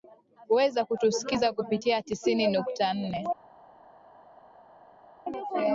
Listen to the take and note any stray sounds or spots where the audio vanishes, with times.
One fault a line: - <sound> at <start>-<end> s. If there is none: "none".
none